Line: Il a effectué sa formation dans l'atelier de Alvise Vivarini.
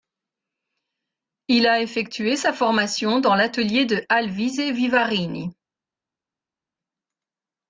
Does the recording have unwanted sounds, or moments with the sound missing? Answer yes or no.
no